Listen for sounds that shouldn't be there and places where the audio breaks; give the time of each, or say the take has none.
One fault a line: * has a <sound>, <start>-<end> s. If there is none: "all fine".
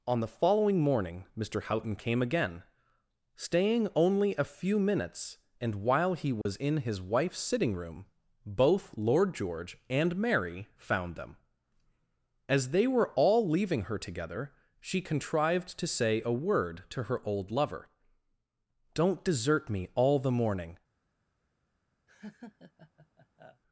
* has a dropout, 6.4-6.5 s
* has a laugh, 22.1-23.6 s